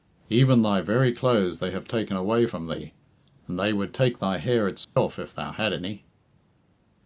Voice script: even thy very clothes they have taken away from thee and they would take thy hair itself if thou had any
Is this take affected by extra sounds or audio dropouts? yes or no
yes